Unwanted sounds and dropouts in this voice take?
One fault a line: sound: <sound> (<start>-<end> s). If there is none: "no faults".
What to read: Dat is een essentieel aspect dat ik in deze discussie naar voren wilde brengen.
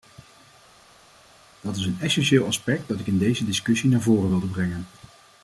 no faults